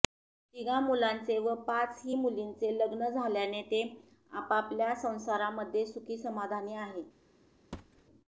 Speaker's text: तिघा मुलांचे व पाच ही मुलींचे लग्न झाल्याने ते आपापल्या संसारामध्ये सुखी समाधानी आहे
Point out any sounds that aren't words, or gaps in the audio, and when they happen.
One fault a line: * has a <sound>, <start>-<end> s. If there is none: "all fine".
* has a thud, 7.7-8.0 s